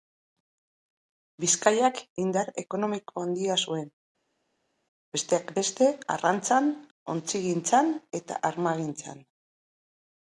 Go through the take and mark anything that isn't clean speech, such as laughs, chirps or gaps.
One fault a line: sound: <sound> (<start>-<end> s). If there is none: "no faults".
no faults